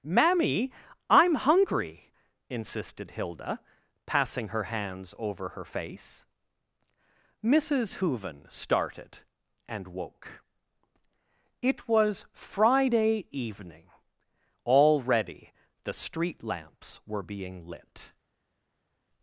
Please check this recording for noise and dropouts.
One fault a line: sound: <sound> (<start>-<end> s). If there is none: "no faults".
no faults